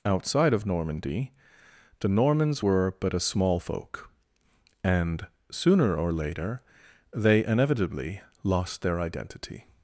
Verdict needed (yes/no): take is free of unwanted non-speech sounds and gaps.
yes